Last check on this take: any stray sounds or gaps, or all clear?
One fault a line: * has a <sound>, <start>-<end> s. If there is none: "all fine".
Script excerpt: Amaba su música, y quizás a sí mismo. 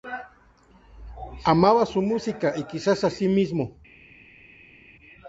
all fine